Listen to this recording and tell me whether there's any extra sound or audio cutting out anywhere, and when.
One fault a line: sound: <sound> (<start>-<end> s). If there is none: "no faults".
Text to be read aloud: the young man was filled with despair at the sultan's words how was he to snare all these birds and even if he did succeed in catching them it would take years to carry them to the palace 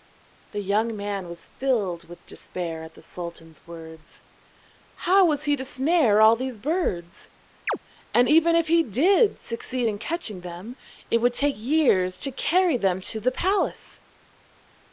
sound: chirp (7.7-7.8 s)